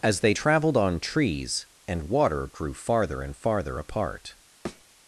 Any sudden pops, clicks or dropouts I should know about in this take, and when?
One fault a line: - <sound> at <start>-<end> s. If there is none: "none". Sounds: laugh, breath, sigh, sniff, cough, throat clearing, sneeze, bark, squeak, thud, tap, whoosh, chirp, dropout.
- thud at 4.7-4.9 s